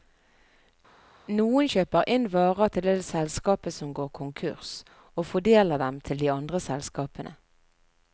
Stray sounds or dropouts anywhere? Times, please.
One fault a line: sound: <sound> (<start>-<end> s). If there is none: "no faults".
no faults